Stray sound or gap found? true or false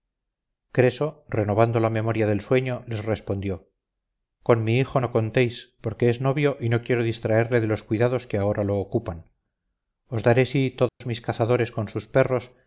true